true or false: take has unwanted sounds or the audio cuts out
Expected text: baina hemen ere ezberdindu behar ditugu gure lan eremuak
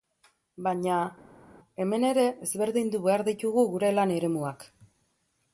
false